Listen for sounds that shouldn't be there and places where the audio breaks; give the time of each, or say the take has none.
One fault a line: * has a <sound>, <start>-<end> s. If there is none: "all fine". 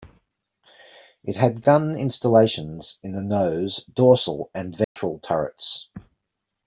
* has a dropout, 4.8-5.0 s